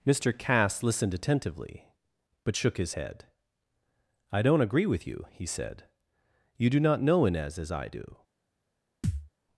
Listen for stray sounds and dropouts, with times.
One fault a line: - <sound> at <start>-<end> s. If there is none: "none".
- thud at 9.0-9.3 s